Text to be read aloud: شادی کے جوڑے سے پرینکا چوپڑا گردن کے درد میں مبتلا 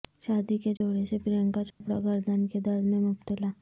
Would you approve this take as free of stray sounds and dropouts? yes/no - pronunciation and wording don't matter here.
no